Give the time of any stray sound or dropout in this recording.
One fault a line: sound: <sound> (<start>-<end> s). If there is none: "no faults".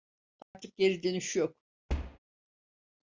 sound: dropout (0.4-0.5 s)
sound: thud (1.9-2.2 s)